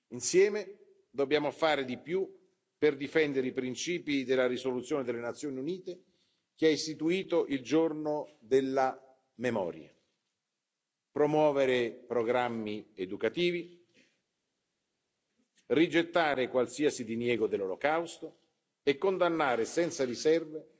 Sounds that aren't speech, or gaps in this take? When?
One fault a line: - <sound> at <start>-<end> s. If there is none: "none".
none